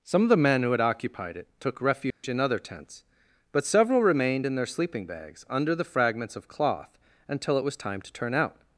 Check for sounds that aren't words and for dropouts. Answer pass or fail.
fail